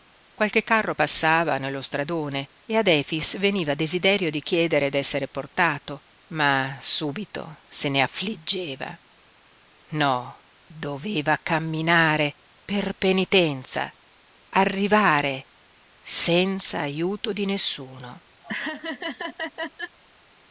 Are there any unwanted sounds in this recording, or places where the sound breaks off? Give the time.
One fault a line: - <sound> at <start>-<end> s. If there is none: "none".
- laugh at 18.4-20.0 s